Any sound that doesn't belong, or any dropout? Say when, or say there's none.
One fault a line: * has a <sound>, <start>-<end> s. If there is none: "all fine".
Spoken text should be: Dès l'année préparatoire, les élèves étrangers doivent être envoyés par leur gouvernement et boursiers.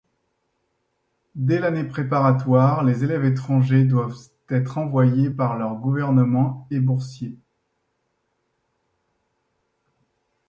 all fine